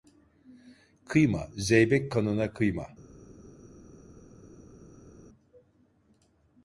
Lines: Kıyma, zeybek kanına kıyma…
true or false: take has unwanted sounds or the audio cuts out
false